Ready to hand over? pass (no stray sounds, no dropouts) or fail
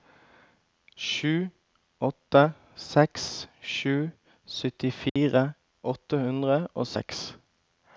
fail